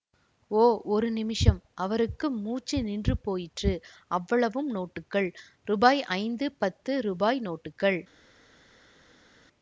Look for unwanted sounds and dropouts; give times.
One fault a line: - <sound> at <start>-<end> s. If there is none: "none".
none